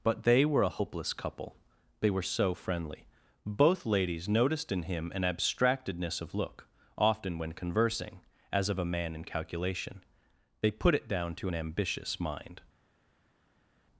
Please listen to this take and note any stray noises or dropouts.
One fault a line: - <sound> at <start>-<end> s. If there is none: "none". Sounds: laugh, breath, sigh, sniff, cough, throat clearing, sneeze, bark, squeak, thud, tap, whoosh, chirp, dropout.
none